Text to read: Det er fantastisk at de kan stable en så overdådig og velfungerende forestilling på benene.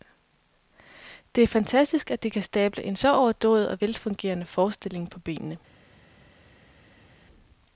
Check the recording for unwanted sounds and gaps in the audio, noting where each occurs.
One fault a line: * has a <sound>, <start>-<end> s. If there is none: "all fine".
all fine